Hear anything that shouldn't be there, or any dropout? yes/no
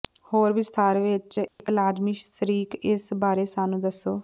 yes